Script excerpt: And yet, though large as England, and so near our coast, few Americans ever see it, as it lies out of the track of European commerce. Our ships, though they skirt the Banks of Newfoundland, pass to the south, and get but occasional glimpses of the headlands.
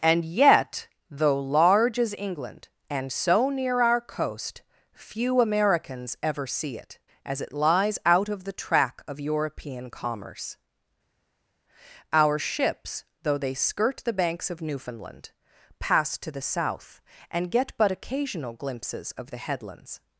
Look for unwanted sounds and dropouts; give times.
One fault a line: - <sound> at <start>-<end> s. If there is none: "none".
none